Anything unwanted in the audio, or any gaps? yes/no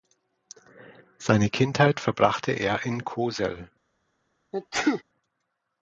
yes